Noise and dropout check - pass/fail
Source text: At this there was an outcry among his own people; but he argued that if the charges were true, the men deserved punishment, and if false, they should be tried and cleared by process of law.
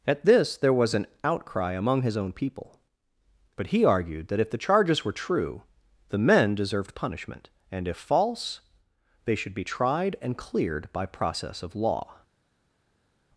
pass